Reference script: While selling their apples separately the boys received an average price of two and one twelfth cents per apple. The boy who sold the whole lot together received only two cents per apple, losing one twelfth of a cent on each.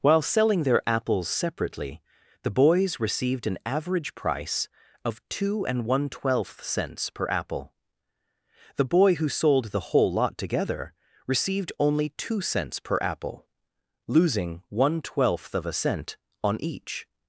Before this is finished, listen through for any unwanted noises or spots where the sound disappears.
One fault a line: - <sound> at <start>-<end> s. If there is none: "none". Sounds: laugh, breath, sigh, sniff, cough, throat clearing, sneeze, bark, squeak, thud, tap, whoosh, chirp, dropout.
none